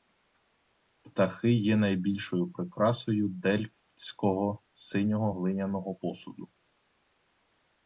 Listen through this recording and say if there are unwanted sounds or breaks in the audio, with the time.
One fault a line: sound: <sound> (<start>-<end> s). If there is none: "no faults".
no faults